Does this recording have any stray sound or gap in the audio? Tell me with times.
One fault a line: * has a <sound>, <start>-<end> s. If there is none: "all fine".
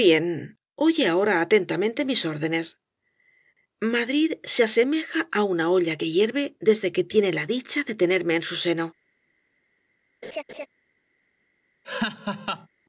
* has a laugh, 10.2-10.7 s
* has a laugh, 11.8-12.7 s